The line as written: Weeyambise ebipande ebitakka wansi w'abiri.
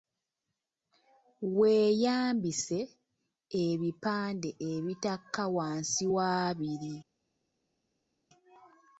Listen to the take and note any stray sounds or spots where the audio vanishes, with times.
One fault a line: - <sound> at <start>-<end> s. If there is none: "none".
none